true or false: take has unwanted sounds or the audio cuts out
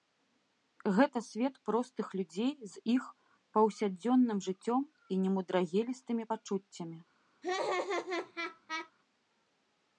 true